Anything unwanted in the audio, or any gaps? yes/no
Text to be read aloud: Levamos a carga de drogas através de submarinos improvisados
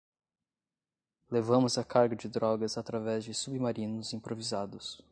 no